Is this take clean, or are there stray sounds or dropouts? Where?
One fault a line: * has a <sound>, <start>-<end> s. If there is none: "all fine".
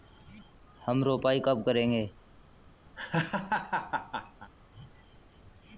* has a laugh, 3.0-4.5 s